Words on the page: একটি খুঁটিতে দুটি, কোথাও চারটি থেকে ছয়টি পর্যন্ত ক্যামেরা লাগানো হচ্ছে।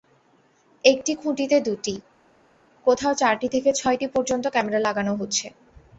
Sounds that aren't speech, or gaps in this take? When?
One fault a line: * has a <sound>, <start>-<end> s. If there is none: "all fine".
all fine